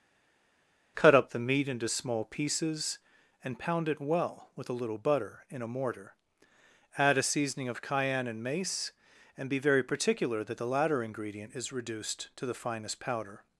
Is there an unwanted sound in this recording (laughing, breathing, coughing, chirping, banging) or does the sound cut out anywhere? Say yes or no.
no